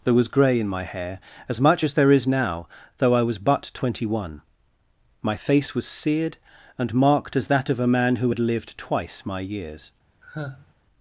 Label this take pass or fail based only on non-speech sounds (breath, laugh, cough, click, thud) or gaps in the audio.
fail